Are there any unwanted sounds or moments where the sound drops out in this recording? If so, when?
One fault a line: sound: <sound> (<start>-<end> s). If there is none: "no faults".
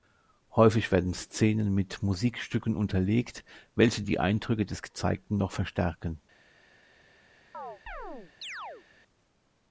sound: chirp (7.5-8.9 s)